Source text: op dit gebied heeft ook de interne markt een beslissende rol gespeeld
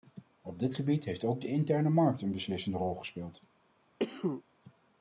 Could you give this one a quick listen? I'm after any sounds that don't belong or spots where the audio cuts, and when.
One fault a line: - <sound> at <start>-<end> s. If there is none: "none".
- cough at 4.0-4.4 s